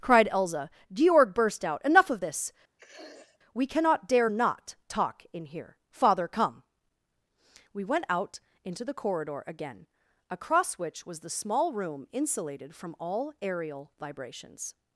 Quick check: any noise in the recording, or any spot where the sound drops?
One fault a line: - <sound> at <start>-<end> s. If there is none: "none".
- sniff at 2.8-3.4 s